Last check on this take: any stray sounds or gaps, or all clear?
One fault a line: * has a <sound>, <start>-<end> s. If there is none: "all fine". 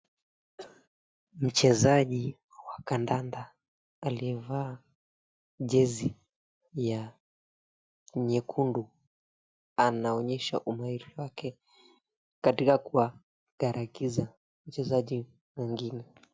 * has a cough, 0.6-0.9 s